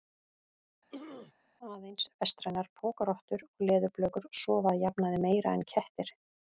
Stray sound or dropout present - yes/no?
yes